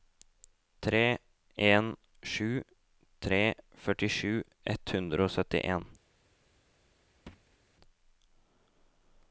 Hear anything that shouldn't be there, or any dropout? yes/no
yes